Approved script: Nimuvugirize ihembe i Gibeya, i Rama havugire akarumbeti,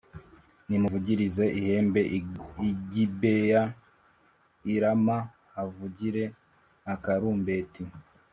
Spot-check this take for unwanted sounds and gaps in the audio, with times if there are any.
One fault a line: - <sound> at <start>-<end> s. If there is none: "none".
none